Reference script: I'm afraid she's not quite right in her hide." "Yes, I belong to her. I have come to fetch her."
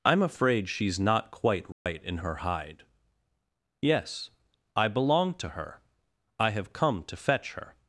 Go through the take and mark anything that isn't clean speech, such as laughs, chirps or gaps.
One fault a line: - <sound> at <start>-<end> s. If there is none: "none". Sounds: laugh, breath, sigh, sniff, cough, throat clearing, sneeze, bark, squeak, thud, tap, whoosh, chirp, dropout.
- dropout at 1.7-1.9 s